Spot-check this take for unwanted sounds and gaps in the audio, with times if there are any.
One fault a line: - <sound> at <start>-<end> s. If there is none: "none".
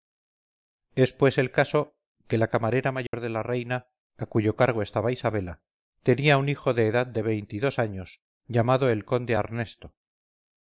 - dropout at 3.1-3.1 s